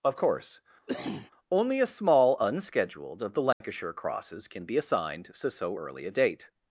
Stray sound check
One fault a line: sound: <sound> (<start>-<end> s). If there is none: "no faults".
sound: cough (0.9-1.3 s)
sound: dropout (3.5-3.6 s)